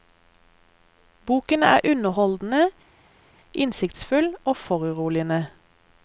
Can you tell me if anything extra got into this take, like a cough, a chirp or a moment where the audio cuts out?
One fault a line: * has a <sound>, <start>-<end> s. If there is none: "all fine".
all fine